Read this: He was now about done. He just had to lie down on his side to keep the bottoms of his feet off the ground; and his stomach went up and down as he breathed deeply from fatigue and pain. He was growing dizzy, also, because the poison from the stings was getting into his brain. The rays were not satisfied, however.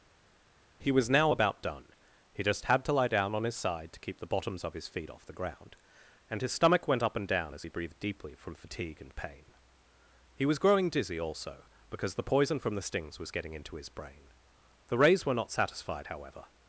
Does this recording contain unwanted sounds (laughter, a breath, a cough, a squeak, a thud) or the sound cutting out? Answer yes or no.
no